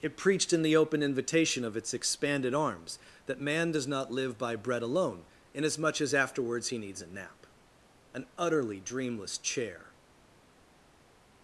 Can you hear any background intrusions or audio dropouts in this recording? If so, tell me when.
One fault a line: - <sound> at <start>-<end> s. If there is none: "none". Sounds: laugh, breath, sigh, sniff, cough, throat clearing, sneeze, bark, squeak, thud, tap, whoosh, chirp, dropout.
none